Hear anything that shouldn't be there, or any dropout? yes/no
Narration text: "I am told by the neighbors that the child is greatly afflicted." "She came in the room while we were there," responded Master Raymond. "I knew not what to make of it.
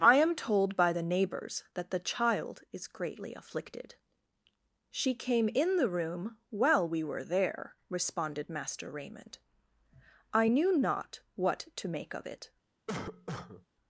yes